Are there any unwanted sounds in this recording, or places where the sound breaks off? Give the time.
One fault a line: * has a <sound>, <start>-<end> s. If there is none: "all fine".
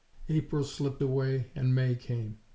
all fine